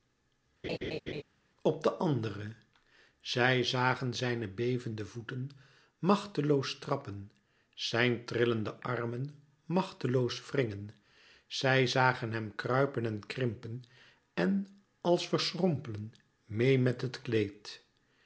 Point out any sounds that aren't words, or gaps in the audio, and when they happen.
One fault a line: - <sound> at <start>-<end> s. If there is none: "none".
- laugh at 0.6-1.2 s